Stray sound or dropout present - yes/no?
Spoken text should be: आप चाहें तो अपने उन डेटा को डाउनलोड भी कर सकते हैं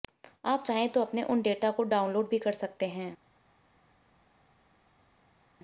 no